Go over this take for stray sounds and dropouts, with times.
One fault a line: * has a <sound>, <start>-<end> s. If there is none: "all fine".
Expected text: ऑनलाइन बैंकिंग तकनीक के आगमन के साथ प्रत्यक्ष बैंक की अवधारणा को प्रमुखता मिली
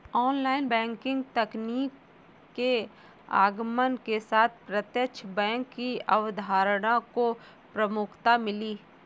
all fine